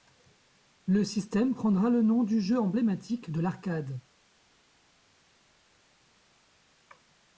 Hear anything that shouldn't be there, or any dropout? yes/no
no